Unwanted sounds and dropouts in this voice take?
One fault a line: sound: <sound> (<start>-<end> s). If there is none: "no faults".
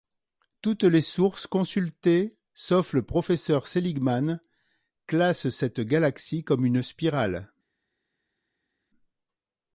no faults